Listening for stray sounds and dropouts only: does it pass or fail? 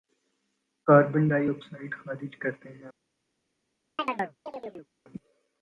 fail